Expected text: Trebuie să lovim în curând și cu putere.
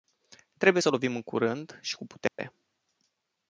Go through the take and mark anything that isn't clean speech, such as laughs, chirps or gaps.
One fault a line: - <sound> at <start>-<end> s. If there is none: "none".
- dropout at 2.3-2.4 s